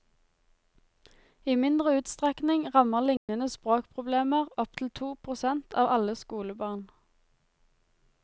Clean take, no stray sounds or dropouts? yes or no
no